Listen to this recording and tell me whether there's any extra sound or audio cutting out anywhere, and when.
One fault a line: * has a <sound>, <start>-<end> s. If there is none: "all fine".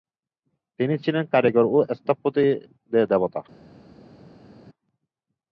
all fine